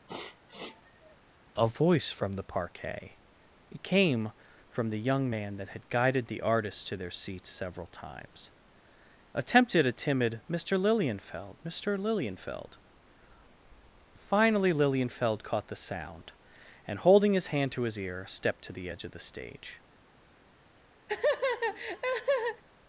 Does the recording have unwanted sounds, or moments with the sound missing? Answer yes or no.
yes